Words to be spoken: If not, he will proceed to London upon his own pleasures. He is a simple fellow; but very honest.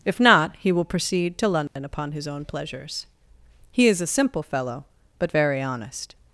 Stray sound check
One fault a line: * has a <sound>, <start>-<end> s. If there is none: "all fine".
* has a dropout, 1.7-1.8 s